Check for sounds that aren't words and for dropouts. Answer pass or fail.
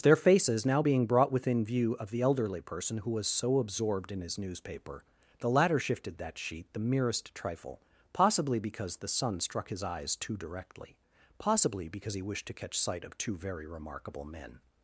pass